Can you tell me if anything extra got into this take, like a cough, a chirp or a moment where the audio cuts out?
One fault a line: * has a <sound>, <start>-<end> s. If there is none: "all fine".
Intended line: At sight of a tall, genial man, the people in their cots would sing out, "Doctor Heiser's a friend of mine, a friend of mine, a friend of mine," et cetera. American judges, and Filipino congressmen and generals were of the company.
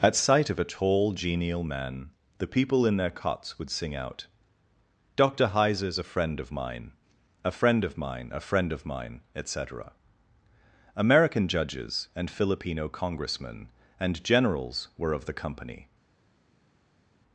all fine